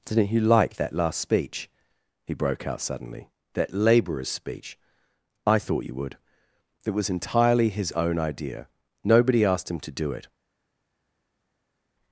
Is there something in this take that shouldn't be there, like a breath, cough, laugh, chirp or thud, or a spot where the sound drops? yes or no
no